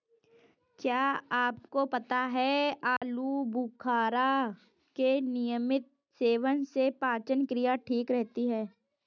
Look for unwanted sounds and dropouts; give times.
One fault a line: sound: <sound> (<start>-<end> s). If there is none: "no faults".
sound: dropout (3.0-3.0 s)